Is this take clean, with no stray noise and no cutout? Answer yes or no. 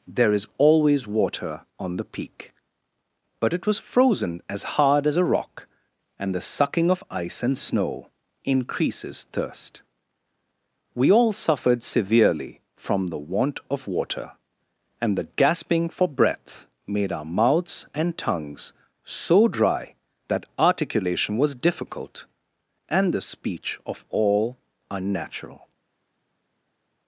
yes